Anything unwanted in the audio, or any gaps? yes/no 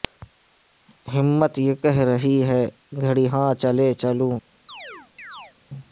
yes